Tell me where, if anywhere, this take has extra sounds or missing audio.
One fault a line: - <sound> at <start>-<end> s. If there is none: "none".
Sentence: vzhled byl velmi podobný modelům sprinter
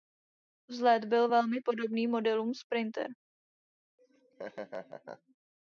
- laugh at 4.0-5.4 s